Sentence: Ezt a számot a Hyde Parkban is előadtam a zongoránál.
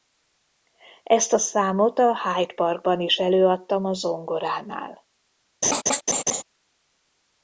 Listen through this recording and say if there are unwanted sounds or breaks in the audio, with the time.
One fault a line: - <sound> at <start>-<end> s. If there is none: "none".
- laugh at 5.6-6.4 s